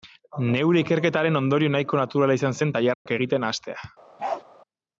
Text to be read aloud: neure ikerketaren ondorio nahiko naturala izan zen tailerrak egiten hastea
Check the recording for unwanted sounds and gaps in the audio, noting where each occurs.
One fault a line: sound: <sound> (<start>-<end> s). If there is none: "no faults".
sound: dropout (2.9-3.1 s)
sound: bark (4.2-4.4 s)